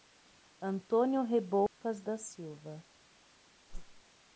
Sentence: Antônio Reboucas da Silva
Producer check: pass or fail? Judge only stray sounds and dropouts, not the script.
fail